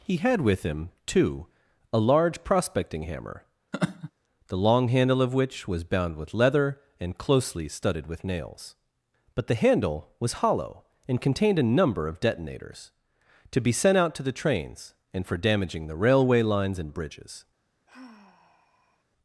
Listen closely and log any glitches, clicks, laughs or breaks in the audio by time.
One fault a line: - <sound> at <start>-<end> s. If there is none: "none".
- laugh at 3.7-4.1 s
- sigh at 17.9-19.0 s